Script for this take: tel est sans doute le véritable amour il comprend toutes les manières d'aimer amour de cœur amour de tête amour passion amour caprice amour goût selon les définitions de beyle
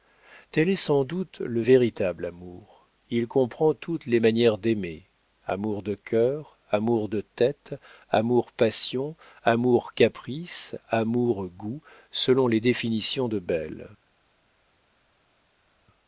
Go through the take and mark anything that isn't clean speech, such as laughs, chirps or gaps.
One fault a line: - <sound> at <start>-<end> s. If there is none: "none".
none